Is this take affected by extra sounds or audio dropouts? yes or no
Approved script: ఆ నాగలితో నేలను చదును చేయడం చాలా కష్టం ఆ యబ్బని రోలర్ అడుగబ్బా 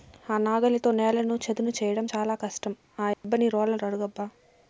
yes